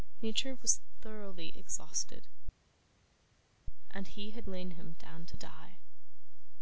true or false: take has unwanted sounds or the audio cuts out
false